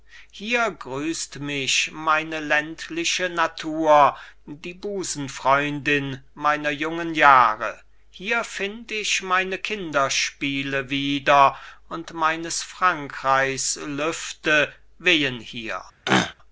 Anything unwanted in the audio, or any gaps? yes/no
yes